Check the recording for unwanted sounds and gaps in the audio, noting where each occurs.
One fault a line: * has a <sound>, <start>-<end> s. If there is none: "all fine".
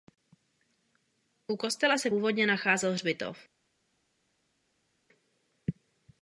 all fine